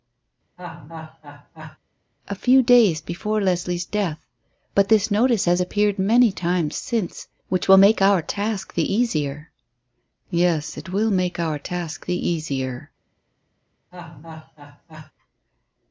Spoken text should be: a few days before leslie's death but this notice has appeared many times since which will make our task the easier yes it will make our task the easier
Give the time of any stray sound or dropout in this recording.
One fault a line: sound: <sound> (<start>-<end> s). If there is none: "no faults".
sound: laugh (0.6-1.8 s)
sound: laugh (13.9-15.1 s)